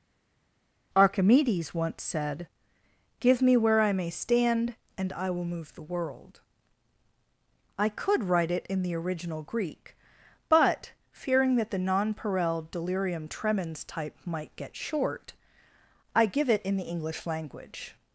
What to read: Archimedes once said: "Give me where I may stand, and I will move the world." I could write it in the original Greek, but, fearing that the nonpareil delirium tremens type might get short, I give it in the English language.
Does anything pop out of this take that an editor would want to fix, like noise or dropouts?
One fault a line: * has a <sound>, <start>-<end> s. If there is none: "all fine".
all fine